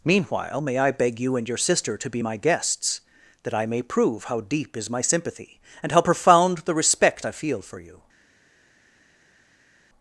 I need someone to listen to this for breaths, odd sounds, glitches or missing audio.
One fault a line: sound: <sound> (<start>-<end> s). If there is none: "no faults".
no faults